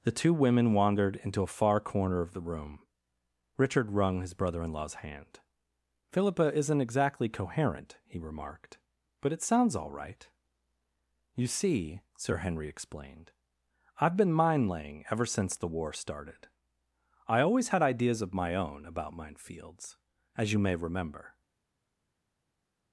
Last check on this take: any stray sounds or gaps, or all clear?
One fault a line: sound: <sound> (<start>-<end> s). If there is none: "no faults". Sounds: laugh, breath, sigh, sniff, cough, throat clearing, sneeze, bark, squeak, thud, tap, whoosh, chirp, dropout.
no faults